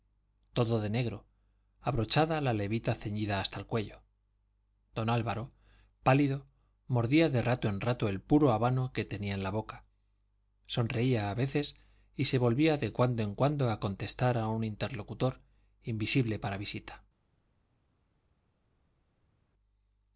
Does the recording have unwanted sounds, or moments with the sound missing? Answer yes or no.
no